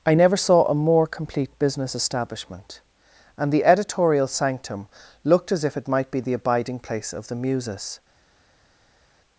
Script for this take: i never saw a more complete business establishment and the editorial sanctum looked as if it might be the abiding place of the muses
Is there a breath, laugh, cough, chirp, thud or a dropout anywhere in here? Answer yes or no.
no